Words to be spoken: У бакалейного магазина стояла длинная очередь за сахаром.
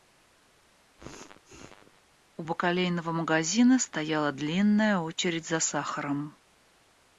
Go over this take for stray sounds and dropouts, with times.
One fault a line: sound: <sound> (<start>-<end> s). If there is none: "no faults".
sound: sneeze (1.0-2.0 s)